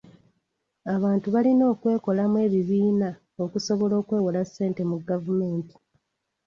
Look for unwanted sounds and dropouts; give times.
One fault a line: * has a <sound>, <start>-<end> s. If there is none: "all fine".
all fine